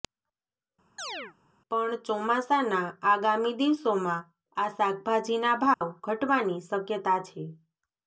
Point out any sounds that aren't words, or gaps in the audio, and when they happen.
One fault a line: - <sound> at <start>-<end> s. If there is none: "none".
- chirp at 1.0-1.3 s
- dropout at 5.7-5.8 s